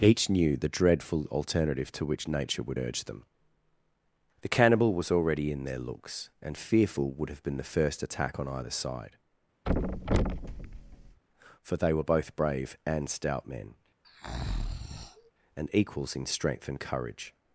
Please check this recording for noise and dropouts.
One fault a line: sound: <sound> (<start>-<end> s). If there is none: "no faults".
sound: thud (9.7-11.2 s)
sound: breath (14.0-15.3 s)